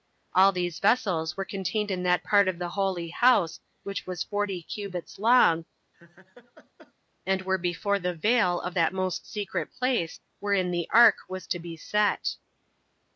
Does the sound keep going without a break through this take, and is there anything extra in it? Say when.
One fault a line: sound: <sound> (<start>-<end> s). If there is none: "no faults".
sound: laugh (5.9-6.9 s)